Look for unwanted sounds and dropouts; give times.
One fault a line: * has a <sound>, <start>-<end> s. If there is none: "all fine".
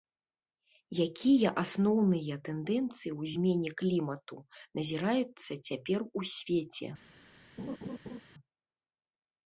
* has a laugh, 7.6-8.2 s